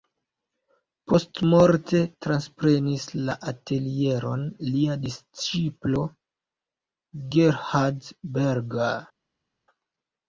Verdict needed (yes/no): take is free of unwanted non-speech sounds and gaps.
yes